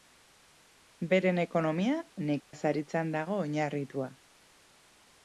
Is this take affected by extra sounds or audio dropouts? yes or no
yes